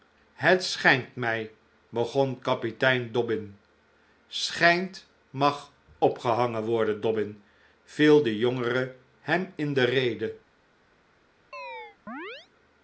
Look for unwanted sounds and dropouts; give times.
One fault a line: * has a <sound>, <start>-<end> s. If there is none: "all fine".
* has a chirp, 11.5-12.5 s